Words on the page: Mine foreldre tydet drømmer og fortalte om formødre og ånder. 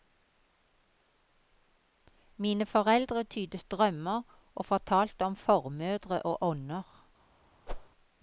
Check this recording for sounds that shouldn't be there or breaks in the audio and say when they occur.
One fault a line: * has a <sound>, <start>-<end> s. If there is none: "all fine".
* has a whoosh, 7.7-7.9 s